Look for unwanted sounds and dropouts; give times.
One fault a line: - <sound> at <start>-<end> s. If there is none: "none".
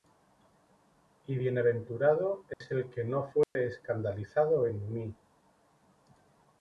- dropout at 2.5-2.6 s
- dropout at 3.4-3.6 s